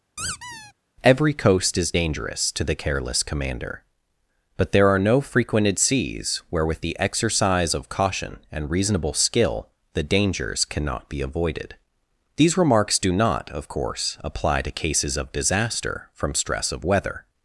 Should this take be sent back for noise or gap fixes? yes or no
yes